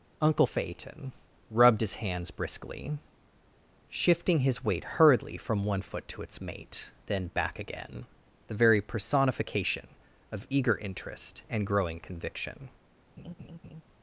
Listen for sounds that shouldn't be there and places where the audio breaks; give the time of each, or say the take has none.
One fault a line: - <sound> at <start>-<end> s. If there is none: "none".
- laugh at 13.2-13.8 s